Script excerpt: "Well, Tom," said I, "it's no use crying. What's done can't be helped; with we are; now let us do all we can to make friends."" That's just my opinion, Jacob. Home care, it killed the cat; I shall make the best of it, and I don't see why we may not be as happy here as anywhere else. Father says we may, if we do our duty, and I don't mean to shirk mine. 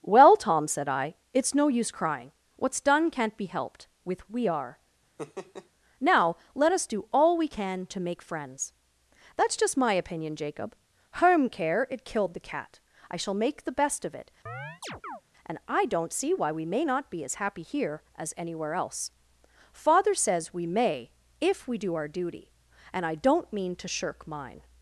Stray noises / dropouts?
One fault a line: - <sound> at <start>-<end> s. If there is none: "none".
- laugh at 5.2-5.7 s
- chirp at 14.5-15.2 s